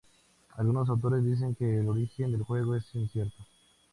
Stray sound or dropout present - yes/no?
no